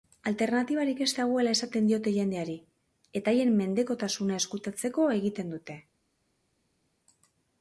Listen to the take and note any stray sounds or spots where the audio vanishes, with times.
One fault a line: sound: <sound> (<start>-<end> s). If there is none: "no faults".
no faults